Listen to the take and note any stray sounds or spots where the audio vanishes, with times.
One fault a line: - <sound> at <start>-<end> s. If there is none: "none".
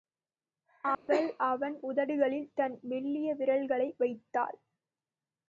- dropout at 0.9-1.1 s